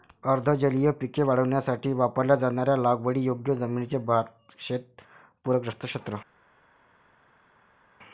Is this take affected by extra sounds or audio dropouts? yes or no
no